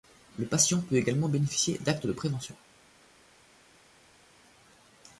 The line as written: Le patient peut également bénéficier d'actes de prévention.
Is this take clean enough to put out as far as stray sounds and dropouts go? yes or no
yes